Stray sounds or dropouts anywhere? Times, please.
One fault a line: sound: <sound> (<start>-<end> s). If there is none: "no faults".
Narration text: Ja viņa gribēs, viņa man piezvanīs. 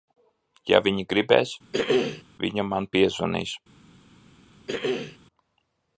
sound: throat clearing (1.7-2.2 s)
sound: throat clearing (4.7-5.2 s)